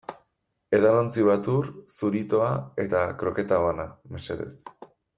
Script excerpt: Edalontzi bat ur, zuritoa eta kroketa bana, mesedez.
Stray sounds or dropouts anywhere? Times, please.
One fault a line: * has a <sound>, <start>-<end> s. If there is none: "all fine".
all fine